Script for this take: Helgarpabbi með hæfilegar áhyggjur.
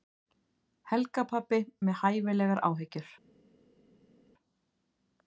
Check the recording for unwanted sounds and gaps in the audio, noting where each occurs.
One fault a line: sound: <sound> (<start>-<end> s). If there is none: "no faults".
no faults